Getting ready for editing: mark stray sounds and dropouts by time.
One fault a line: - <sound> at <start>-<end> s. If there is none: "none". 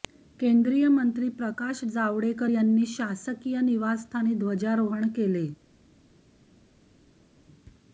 none